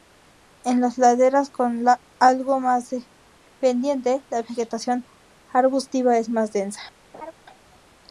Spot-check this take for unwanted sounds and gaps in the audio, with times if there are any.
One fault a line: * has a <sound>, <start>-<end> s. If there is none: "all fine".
* has a laugh, 7.1-7.3 s